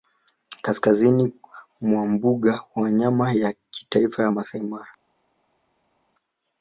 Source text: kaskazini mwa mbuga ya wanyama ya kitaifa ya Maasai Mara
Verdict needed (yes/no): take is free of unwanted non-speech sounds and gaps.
yes